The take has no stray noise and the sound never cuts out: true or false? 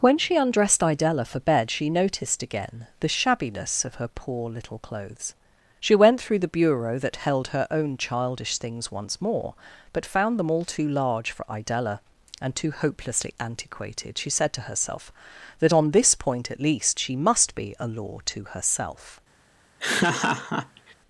false